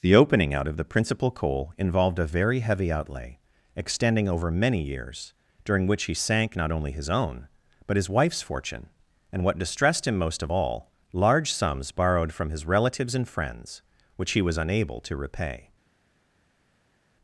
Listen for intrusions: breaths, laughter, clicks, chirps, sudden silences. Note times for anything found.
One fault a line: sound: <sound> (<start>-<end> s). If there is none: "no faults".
no faults